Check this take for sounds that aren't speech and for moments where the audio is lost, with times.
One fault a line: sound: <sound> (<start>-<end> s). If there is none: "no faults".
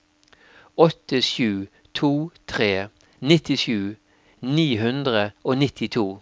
no faults